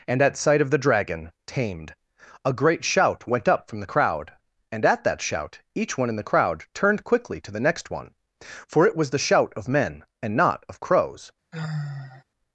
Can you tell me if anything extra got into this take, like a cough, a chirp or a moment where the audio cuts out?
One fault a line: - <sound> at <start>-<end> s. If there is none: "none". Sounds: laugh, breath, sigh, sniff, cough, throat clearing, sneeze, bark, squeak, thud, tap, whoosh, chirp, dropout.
- sigh at 11.5-12.2 s